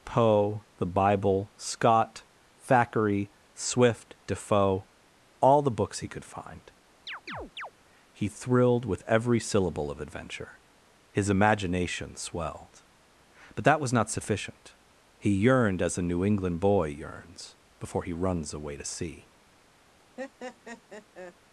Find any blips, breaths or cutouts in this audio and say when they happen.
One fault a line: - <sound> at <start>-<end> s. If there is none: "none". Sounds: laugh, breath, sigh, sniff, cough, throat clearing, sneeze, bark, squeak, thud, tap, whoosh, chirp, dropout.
- chirp at 7.1-7.7 s
- laugh at 20.2-21.3 s